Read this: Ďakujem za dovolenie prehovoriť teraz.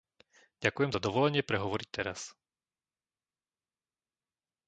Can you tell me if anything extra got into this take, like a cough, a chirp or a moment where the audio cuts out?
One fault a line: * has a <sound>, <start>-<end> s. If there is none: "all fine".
all fine